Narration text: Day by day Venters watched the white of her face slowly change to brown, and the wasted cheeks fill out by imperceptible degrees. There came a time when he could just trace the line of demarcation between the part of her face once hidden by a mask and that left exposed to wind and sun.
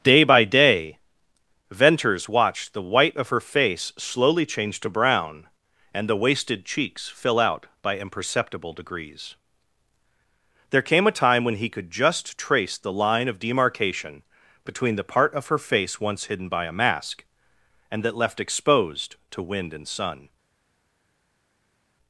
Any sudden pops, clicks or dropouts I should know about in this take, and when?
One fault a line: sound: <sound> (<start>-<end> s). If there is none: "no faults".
no faults